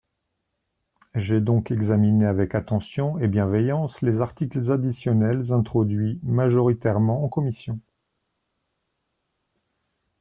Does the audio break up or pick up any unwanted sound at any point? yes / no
no